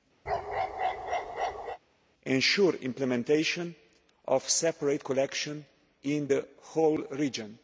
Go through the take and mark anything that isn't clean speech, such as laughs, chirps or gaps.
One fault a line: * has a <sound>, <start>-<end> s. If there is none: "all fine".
* has a bark, 0.3-1.8 s